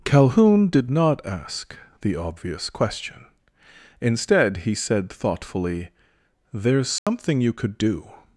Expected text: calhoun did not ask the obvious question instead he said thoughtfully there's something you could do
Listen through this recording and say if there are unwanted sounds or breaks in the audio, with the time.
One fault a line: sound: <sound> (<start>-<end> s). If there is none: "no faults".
sound: dropout (7.0-7.1 s)